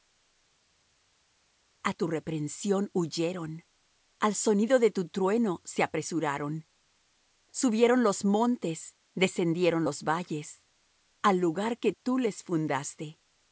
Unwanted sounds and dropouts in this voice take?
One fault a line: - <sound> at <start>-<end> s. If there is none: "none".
none